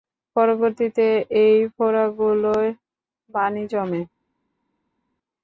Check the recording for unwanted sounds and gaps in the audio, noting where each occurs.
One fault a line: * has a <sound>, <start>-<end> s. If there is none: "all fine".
all fine